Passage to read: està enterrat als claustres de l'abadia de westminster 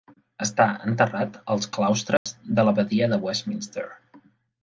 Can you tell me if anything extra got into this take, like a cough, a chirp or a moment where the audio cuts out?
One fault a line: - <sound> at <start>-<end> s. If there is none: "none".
- dropout at 2.2-2.3 s